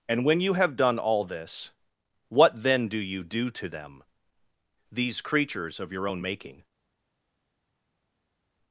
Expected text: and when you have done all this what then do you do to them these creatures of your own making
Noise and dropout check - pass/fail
pass